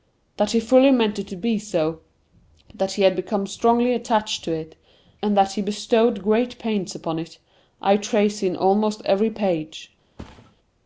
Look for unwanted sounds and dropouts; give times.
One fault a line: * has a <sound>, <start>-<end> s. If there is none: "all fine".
* has a thud, 10.2-10.6 s